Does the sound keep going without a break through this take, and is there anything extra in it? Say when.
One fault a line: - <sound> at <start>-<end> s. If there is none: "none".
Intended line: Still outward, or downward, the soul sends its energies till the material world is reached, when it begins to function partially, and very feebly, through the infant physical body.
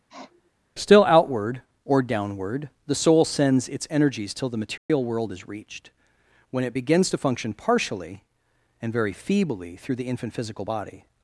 - sniff at 0.1-0.5 s
- dropout at 4.8-4.9 s